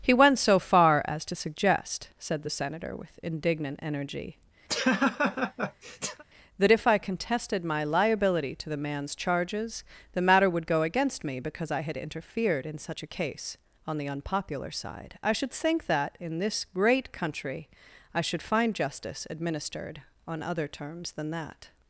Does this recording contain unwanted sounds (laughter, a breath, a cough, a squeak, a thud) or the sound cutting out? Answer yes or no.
yes